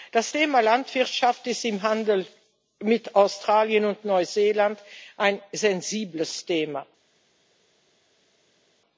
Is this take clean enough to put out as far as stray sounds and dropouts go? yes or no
yes